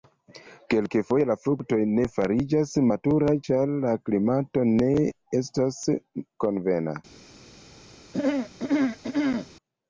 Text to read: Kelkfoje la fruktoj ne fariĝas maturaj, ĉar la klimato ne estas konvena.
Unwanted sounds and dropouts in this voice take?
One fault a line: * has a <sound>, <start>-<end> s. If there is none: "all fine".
* has a throat clearing, 8.1-9.5 s